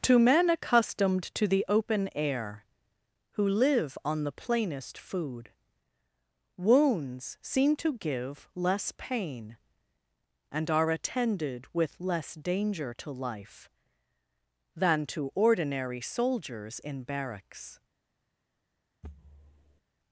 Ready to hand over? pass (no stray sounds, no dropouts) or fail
fail